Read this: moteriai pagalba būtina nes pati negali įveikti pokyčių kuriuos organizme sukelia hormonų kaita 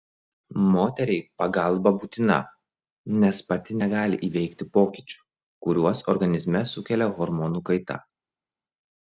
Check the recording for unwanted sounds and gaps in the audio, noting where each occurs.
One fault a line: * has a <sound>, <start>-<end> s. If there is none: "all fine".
all fine